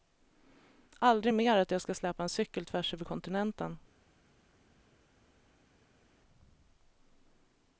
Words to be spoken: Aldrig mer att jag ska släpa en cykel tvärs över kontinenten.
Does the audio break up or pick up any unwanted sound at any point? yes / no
no